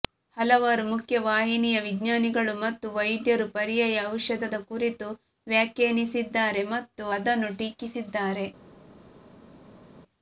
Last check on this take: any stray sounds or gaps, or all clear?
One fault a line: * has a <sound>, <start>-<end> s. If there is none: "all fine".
all fine